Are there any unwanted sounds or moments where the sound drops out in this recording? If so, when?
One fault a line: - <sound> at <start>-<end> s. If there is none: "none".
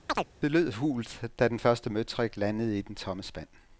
- chirp at 0.1-0.3 s